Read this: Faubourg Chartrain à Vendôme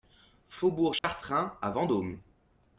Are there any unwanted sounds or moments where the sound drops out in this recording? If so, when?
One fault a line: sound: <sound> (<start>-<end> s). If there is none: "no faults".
sound: dropout (1.0-1.0 s)